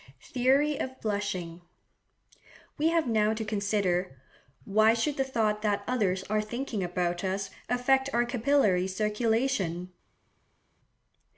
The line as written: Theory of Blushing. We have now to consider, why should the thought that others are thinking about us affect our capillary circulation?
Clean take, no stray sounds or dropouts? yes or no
yes